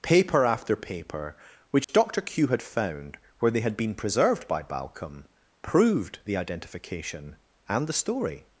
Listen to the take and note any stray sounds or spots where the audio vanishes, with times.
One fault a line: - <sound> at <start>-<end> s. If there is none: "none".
- dropout at 1.8-1.9 s